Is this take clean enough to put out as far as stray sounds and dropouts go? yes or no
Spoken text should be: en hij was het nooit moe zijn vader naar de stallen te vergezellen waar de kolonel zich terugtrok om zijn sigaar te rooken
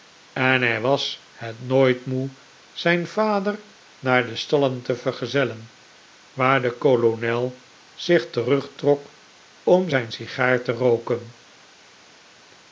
yes